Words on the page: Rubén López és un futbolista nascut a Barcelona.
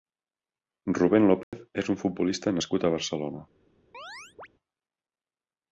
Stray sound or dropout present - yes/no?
yes